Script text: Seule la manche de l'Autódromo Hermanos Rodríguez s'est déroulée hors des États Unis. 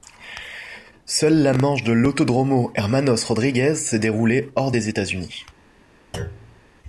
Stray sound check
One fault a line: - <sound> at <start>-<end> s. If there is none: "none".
- thud at 6.1-6.6 s